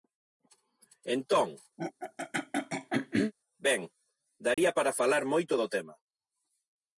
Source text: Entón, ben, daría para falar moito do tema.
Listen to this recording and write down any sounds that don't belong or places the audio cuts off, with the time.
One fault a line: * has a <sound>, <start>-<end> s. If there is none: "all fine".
* has a throat clearing, 1.8-3.3 s
* has a dropout, 4.5-4.6 s